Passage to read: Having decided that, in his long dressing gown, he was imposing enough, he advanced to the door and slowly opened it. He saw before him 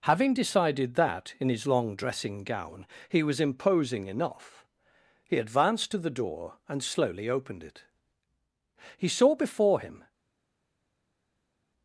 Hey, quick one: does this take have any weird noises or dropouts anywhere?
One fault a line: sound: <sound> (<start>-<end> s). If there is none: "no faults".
no faults